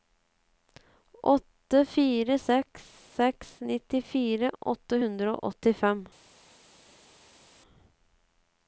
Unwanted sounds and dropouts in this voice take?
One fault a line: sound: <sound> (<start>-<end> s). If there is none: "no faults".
no faults